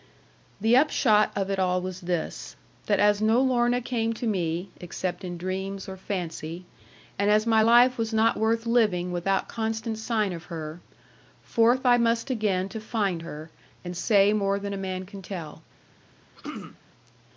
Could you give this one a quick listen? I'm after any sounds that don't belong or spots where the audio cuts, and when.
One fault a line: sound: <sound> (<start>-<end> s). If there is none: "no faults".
sound: throat clearing (16.4-16.8 s)